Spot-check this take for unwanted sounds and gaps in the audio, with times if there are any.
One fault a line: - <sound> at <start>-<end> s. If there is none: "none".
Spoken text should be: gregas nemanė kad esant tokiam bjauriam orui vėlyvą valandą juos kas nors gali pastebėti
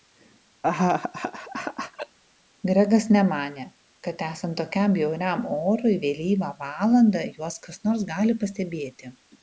- laugh at 0.6-2.2 s